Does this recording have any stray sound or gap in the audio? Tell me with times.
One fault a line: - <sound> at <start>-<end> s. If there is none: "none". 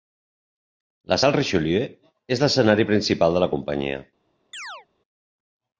- chirp at 4.5-4.9 s